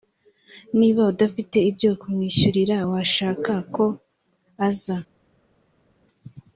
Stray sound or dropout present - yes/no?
no